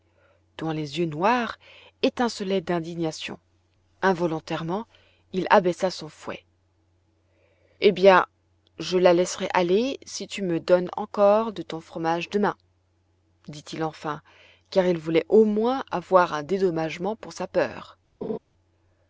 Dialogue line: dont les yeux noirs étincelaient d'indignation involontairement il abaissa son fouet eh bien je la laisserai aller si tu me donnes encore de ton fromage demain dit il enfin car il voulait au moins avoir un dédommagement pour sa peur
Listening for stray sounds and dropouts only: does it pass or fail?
fail